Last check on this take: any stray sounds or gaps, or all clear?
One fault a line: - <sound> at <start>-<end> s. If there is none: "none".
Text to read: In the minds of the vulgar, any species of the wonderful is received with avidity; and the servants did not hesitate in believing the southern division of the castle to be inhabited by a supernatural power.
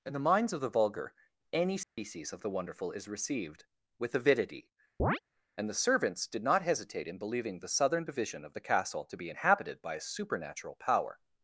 - dropout at 1.8-2.0 s
- chirp at 5.0-5.2 s